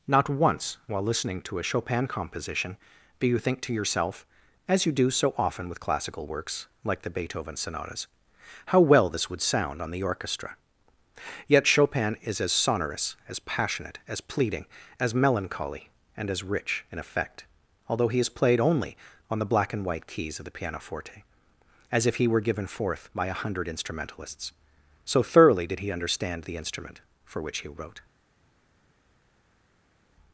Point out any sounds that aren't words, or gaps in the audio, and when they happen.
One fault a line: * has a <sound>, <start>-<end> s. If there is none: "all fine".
all fine